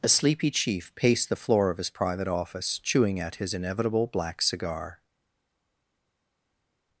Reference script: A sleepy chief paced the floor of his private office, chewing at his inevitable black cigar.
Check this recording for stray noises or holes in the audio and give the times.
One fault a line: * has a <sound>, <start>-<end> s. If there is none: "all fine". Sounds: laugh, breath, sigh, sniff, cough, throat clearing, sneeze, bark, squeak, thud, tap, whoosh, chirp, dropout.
all fine